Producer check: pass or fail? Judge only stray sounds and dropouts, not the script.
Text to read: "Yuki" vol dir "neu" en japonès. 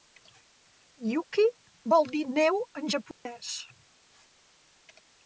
fail